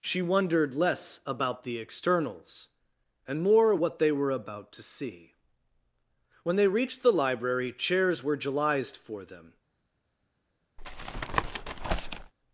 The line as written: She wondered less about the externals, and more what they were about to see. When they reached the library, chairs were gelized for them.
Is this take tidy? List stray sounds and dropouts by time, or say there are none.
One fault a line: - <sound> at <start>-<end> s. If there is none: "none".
- tap at 10.8-12.3 s